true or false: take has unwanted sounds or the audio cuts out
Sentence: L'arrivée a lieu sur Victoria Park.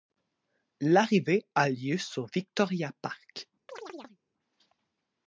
true